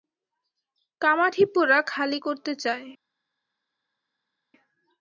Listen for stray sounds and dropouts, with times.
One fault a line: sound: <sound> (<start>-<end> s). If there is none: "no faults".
no faults